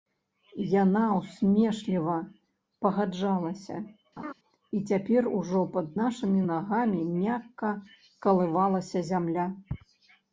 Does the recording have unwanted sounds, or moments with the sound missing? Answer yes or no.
yes